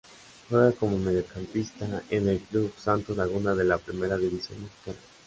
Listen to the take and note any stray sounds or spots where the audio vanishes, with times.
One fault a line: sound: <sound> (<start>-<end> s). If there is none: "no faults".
no faults